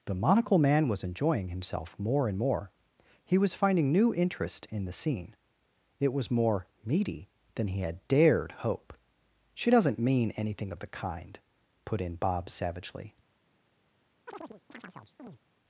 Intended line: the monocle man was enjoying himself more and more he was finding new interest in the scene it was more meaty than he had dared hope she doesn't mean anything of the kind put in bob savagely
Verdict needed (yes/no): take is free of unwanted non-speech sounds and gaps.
no